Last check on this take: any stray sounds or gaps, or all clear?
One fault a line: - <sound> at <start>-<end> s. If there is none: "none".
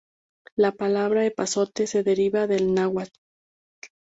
none